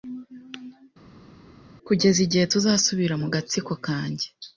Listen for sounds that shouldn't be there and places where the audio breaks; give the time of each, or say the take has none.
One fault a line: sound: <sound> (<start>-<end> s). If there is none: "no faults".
no faults